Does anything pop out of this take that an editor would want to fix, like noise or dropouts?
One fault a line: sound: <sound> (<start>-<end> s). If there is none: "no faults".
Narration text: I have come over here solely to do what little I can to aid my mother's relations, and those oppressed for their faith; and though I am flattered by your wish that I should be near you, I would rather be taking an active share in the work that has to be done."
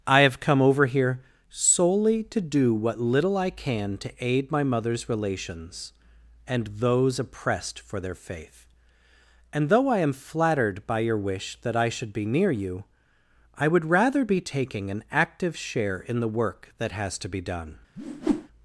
sound: whoosh (18.0-18.5 s)